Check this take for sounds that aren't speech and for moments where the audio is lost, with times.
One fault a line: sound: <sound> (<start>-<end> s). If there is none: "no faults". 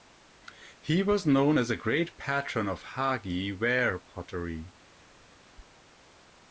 no faults